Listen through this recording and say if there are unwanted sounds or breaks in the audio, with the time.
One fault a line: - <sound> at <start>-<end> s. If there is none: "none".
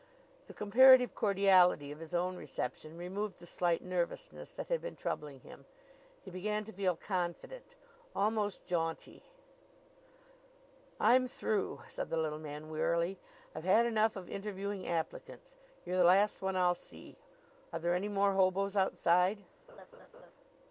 - laugh at 19.7-20.3 s